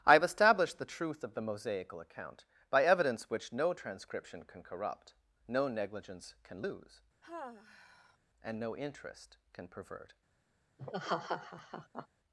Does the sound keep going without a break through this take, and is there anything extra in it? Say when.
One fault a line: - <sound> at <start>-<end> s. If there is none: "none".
- sigh at 7.2-8.2 s
- laugh at 10.8-12.1 s